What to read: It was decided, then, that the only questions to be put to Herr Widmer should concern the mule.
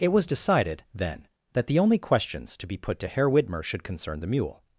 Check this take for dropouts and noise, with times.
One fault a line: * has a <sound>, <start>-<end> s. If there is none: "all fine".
all fine